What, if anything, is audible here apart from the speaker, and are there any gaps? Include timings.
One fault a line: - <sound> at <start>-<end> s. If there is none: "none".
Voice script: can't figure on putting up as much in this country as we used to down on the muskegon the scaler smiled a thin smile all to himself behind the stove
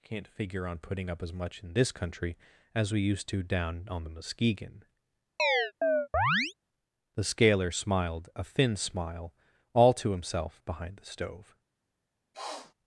- chirp at 5.4-6.5 s
- sniff at 12.3-12.7 s